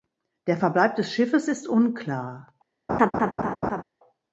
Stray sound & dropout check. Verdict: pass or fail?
fail